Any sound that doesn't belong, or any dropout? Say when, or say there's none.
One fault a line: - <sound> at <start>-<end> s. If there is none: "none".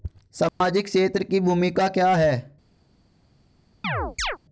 - dropout at 0.5-0.6 s
- chirp at 3.8-4.4 s